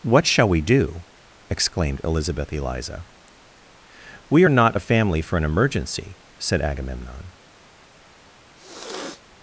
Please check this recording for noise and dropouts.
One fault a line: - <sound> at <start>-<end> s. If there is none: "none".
- sniff at 8.6-9.2 s